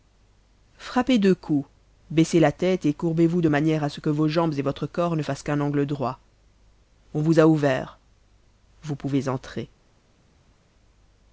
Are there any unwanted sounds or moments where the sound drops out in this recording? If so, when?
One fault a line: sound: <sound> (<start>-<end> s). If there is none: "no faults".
no faults